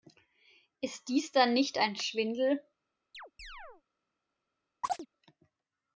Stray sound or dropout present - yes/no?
yes